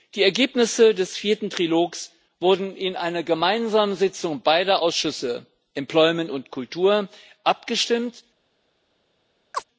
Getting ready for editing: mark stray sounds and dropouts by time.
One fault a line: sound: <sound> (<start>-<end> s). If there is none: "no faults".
sound: chirp (9.5-9.6 s)